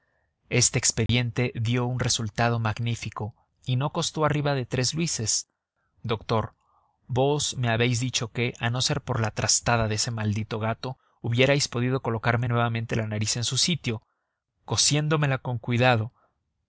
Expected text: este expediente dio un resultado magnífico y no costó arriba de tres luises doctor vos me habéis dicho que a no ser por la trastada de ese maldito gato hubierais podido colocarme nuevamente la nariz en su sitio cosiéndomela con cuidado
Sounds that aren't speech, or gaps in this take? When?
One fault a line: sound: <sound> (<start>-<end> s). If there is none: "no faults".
sound: dropout (1.1-1.1 s)